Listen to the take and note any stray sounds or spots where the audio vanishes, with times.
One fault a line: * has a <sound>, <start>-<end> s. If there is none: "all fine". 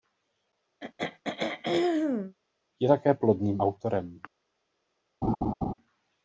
* has a throat clearing, 0.8-2.4 s
* has a laugh, 5.2-5.7 s